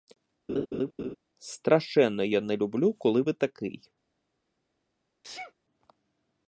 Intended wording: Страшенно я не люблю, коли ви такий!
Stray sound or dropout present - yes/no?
yes